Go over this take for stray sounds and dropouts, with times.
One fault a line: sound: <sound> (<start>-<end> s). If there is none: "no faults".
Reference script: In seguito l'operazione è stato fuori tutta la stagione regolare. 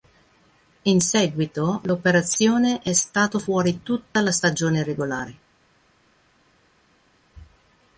no faults